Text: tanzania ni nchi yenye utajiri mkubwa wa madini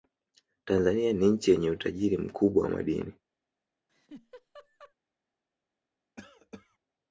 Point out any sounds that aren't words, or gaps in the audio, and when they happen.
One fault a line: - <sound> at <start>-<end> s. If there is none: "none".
- laugh at 3.9-4.9 s
- cough at 6.2-6.8 s